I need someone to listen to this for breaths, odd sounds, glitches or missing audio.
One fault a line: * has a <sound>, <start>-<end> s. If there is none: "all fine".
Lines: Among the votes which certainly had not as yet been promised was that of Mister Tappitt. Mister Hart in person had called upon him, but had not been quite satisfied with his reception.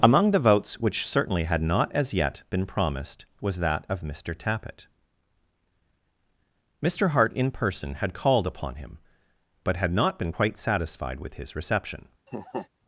* has a laugh, 12.3-12.7 s